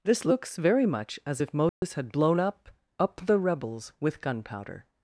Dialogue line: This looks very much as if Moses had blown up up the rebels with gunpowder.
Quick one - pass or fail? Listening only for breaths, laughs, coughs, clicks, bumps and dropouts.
fail